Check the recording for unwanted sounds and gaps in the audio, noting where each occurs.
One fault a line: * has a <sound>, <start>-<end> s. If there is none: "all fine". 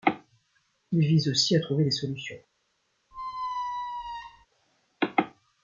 * has a squeak, 3.1-4.5 s